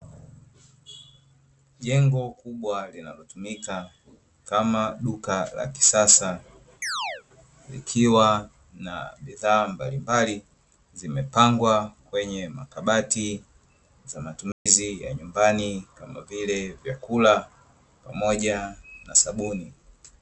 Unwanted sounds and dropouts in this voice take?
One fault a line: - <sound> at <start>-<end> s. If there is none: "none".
- chirp at 6.8-7.2 s
- dropout at 14.5-14.7 s